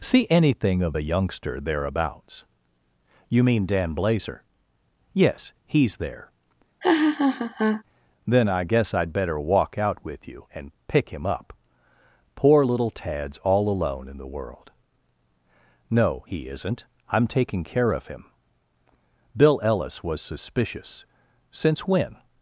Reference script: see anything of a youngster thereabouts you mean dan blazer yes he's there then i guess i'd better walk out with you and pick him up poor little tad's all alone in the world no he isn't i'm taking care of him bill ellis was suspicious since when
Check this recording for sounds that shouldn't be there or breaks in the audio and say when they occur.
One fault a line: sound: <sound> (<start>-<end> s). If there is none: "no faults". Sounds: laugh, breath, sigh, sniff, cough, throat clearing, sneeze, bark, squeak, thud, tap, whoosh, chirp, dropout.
sound: laugh (6.8-7.8 s)